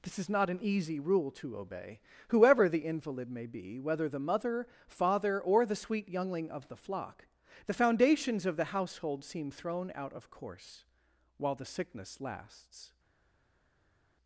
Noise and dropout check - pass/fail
pass